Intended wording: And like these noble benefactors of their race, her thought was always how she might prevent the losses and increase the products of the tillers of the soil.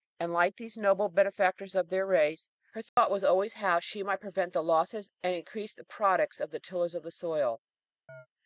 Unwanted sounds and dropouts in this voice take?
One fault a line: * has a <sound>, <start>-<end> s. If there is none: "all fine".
* has a dropout, 2.9-3.0 s
* has a chirp, 8.1-8.3 s